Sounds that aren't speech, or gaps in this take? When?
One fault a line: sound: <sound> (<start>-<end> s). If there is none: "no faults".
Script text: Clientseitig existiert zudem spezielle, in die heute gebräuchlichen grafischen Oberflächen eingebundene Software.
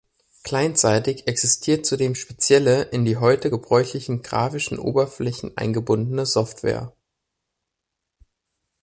no faults